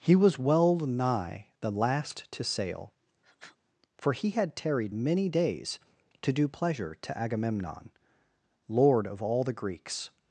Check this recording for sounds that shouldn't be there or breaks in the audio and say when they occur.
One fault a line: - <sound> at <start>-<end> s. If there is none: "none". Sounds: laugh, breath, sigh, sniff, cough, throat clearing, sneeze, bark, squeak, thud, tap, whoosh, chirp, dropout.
- sniff at 3.2-3.6 s